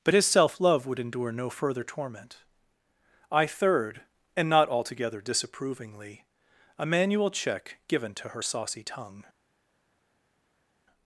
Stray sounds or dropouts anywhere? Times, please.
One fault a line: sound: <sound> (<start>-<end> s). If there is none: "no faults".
no faults